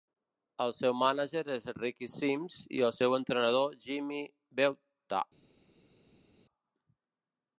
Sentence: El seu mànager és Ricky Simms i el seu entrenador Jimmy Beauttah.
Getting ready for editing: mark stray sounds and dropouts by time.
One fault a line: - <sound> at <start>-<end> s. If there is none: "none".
none